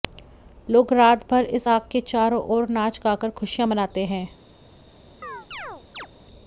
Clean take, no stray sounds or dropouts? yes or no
no